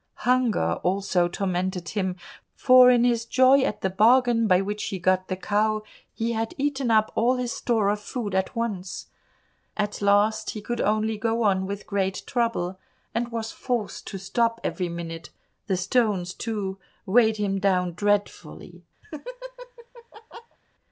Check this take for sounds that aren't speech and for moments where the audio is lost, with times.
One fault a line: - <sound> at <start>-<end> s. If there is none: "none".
- laugh at 19.0-20.6 s